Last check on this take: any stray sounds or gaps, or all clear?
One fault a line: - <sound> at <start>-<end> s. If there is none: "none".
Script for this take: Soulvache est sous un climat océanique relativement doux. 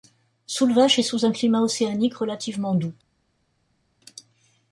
none